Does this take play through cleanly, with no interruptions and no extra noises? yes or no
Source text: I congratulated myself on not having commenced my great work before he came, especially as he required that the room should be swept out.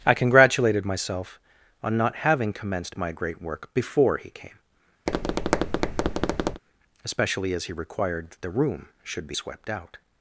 no